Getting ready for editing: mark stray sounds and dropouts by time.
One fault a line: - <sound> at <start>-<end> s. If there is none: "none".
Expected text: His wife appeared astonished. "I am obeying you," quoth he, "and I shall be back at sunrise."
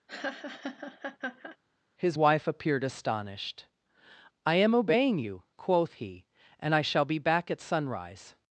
- laugh at 0.1-1.6 s